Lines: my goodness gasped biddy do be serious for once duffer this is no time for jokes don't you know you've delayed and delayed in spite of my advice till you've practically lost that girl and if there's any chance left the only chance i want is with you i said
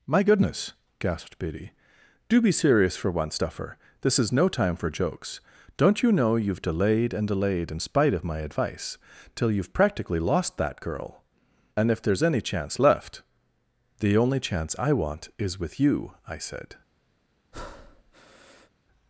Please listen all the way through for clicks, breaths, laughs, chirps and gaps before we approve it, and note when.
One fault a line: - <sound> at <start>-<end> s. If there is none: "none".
- breath at 17.5-18.7 s